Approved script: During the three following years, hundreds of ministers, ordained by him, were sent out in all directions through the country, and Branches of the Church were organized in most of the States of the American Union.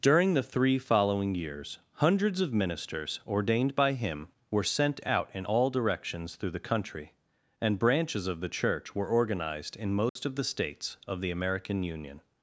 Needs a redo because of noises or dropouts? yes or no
yes